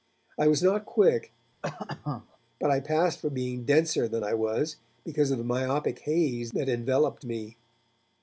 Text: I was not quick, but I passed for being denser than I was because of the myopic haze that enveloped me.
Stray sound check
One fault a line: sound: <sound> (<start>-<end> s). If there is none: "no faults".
sound: cough (1.6-2.4 s)